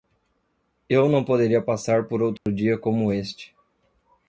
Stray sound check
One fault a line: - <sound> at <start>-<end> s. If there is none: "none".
- dropout at 2.4-2.5 s